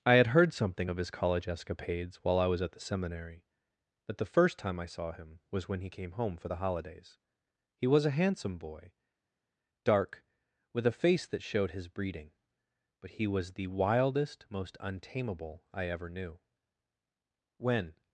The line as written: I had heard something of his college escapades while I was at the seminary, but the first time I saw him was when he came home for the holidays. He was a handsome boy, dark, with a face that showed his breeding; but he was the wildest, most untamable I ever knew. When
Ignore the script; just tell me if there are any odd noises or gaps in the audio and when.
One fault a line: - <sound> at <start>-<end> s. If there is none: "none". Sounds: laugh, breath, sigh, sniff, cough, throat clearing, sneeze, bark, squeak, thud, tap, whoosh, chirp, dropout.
none